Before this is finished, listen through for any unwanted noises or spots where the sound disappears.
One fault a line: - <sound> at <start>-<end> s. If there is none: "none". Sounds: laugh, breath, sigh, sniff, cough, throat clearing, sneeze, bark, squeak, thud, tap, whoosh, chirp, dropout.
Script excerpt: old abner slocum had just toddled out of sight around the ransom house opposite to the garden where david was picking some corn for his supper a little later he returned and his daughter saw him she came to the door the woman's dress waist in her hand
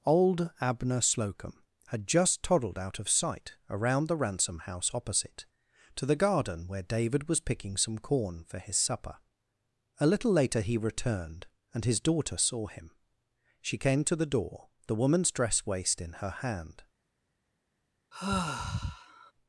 - sigh at 18.1-19.3 s